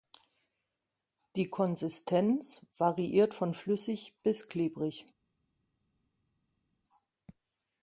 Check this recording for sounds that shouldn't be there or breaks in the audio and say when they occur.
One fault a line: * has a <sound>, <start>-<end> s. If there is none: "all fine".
all fine